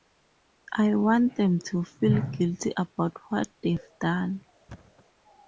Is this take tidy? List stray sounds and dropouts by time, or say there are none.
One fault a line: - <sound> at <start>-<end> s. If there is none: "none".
- thud at 4.7-5.1 s